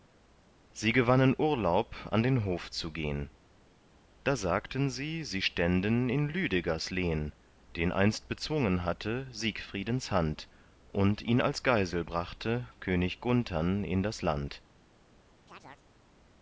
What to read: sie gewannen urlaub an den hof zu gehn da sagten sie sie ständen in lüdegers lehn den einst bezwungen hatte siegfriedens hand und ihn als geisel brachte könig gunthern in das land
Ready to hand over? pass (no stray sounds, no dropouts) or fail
fail